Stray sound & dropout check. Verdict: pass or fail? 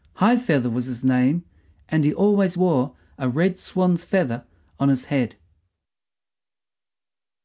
pass